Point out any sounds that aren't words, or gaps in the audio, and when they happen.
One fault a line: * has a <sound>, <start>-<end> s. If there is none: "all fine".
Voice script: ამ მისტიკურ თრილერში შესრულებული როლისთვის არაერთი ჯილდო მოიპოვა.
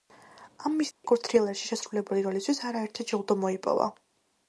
* has a dropout, 0.9-1.0 s